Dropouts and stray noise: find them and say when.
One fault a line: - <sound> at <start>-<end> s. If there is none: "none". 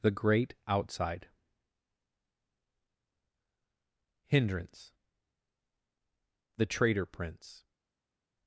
none